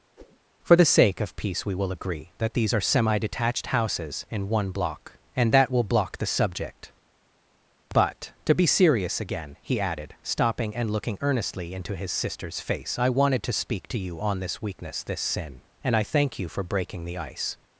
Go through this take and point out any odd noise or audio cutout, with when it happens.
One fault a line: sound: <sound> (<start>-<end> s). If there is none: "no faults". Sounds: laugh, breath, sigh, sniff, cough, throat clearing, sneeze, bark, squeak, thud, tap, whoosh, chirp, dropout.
sound: whoosh (0.2-0.4 s)